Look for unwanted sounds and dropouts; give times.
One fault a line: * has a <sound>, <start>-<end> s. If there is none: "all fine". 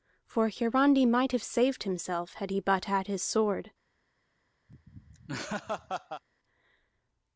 * has a laugh, 4.7-6.2 s